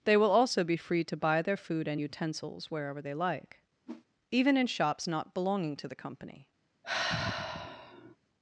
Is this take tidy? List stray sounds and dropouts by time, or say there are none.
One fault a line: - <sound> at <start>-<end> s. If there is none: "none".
- whoosh at 3.9-4.1 s
- sigh at 6.8-8.2 s